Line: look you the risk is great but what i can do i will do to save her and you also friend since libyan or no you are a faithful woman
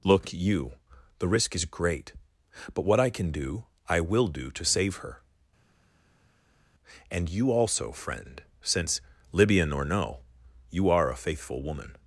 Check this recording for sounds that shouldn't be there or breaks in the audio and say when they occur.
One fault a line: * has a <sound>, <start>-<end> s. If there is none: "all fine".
all fine